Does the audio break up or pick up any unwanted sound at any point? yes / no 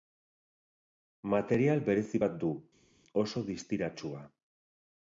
no